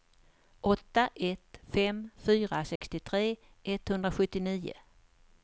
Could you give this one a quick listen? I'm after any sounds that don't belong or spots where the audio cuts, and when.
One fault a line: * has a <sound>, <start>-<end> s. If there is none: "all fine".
* has a dropout, 2.8-2.8 s